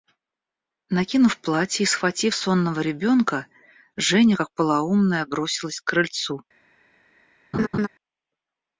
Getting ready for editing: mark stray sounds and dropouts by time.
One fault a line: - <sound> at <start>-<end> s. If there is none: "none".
- laugh at 7.5-7.9 s